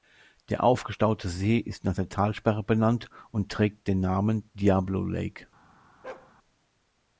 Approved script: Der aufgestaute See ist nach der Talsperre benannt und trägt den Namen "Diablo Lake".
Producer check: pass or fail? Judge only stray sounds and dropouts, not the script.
fail